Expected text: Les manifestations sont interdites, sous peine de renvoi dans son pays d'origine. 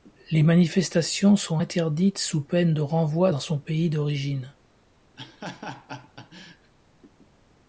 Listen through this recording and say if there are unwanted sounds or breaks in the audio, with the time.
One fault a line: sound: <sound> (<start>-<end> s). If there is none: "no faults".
sound: laugh (5.2-6.7 s)